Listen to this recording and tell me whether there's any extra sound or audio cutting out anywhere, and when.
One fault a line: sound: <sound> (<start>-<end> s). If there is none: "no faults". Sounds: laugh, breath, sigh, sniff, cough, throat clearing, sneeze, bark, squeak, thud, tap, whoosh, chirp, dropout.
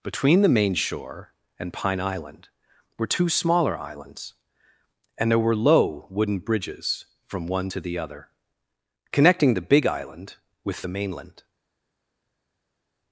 no faults